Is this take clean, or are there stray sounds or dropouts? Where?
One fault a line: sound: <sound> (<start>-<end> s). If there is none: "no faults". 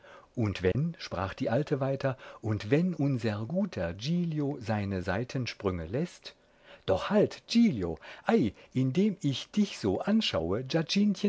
sound: dropout (0.7-0.7 s)